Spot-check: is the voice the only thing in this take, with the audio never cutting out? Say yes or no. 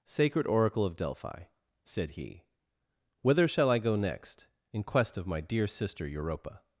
yes